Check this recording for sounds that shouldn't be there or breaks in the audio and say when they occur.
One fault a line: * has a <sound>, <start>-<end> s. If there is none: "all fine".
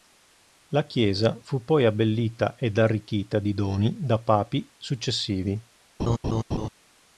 * has a laugh, 6.0-6.7 s